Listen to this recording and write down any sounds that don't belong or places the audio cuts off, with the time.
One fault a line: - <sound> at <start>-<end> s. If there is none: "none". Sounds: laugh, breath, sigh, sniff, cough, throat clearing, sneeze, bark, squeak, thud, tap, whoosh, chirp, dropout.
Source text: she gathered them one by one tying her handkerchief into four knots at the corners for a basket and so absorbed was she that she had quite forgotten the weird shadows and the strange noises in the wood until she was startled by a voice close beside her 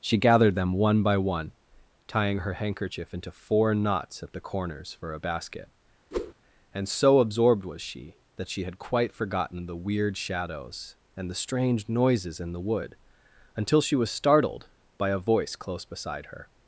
- whoosh at 6.1-6.3 s